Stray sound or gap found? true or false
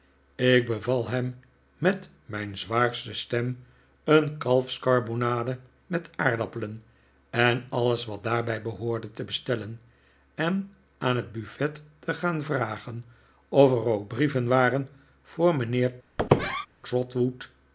true